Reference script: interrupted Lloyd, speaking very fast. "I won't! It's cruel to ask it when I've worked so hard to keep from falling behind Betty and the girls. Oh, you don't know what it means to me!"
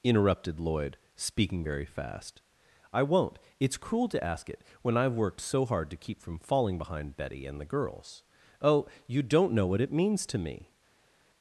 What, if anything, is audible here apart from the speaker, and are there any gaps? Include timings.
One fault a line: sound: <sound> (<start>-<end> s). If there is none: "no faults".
no faults